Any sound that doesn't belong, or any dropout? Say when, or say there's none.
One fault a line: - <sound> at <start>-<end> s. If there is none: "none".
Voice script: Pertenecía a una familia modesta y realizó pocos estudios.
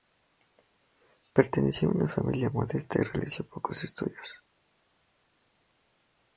none